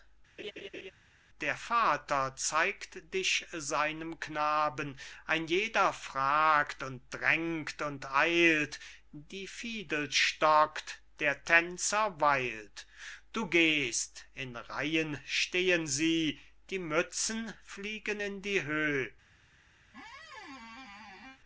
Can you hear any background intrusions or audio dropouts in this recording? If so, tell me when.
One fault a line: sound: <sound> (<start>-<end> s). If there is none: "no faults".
sound: laugh (0.4-0.9 s)
sound: squeak (19.9-21.4 s)